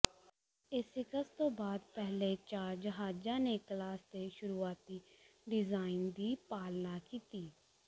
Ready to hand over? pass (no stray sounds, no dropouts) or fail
pass